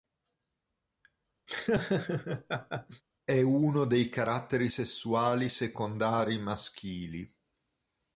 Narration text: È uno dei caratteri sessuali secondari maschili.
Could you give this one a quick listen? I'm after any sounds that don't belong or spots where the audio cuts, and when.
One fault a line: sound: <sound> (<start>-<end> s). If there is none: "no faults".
sound: laugh (1.5-3.0 s)